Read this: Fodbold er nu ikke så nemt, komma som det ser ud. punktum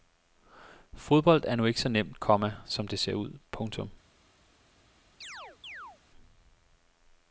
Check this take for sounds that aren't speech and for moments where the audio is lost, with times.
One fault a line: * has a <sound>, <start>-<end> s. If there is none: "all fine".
* has a chirp, 5.2-6.0 s